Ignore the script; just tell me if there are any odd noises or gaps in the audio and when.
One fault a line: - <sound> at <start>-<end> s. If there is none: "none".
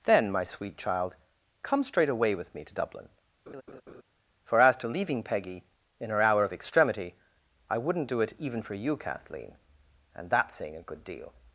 - laugh at 3.5-4.0 s